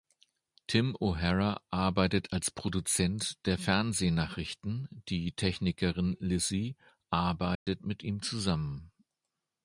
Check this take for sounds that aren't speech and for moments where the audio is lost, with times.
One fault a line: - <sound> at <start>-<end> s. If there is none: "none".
- dropout at 7.5-7.7 s